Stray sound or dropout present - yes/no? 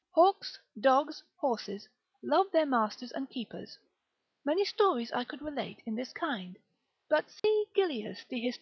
yes